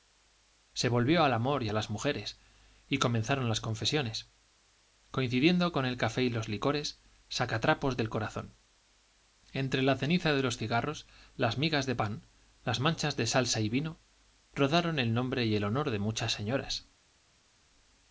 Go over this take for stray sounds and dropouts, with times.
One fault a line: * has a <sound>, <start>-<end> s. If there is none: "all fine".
all fine